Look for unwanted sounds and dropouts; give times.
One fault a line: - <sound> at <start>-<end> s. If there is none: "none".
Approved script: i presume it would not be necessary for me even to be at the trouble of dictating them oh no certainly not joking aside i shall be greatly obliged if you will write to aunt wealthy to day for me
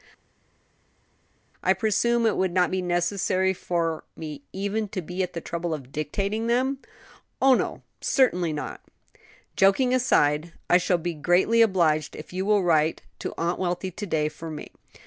none